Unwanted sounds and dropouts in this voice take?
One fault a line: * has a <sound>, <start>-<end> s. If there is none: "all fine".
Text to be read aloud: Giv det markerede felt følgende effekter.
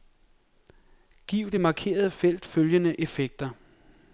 all fine